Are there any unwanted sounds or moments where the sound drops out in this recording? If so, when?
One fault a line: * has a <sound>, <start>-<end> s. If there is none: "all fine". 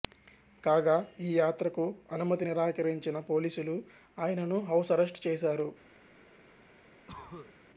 * has a cough, 7.1-7.5 s